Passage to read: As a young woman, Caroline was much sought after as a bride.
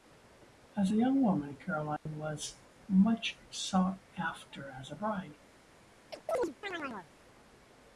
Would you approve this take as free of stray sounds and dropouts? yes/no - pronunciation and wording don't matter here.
no